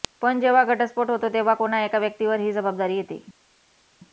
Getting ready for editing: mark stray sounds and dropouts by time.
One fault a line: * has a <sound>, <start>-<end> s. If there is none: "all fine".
all fine